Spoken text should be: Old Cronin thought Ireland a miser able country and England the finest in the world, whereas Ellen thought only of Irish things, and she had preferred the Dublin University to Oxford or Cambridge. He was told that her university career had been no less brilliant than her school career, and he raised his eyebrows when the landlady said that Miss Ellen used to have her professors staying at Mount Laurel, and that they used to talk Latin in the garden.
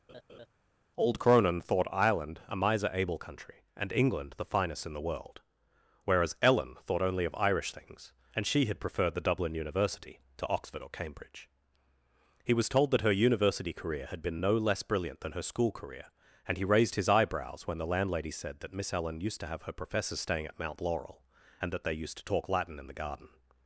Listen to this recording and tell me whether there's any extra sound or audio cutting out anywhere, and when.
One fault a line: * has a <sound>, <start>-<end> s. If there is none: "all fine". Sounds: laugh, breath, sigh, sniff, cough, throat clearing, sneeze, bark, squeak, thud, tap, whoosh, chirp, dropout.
* has a laugh, 0.1-0.5 s